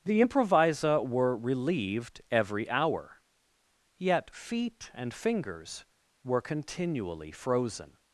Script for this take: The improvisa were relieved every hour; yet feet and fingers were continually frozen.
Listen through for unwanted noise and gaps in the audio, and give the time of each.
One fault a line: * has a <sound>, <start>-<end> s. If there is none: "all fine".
all fine